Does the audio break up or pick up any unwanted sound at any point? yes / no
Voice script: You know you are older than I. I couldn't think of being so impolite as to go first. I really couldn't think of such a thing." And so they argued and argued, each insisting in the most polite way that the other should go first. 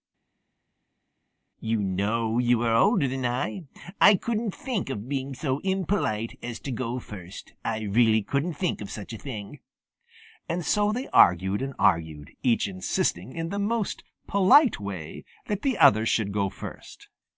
no